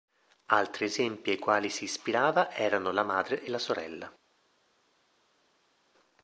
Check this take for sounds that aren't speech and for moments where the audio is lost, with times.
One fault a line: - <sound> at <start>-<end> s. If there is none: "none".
none